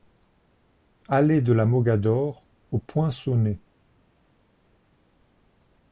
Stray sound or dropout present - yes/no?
no